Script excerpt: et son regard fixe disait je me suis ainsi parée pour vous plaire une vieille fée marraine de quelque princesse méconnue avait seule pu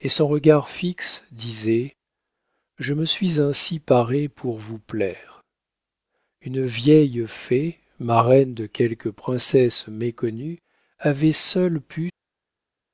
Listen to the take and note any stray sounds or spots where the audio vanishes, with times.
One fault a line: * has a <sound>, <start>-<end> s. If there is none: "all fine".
all fine